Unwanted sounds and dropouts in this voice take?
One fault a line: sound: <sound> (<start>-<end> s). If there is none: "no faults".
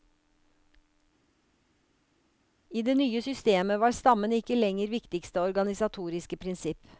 no faults